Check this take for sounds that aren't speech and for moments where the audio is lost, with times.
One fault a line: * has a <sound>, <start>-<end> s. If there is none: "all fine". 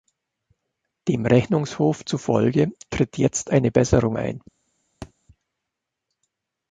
* has a thud, 5.0-5.1 s